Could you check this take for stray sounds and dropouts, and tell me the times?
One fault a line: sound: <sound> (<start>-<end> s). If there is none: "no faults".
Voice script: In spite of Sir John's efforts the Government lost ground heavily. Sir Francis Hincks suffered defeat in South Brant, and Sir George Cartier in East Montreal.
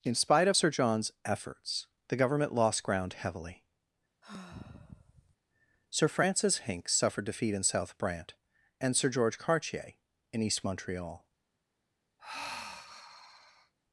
sound: sigh (4.2-5.4 s)
sound: sigh (12.2-13.7 s)